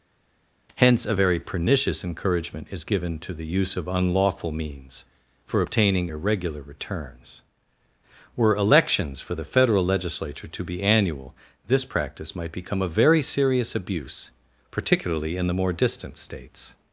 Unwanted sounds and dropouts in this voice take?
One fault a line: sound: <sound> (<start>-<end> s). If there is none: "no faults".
no faults